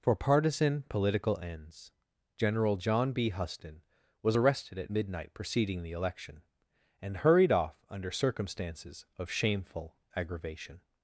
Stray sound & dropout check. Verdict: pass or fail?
pass